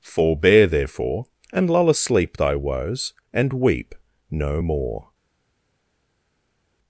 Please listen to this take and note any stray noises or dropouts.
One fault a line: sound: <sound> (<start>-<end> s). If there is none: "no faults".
no faults